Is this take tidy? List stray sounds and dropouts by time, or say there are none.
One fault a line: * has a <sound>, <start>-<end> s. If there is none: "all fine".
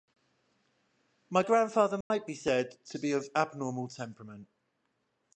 * has a dropout, 2.0-2.1 s